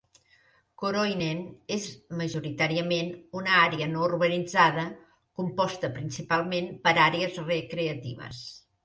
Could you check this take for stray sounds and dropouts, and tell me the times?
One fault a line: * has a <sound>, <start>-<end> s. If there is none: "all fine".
all fine